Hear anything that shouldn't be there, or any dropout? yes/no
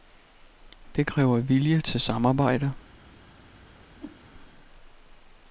yes